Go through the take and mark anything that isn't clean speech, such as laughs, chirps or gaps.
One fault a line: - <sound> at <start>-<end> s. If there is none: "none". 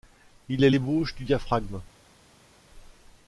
none